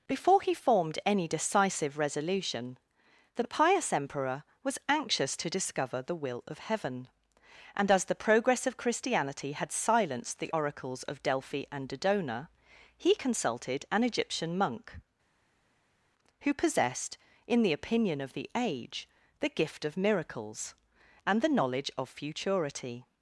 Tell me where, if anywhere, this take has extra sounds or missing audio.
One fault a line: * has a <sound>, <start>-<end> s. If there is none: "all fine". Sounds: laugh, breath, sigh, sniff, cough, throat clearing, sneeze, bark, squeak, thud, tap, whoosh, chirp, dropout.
all fine